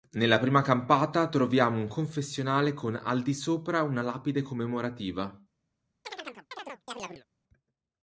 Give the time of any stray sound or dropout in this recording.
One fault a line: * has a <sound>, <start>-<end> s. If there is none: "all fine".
* has a chirp, 6.0-7.2 s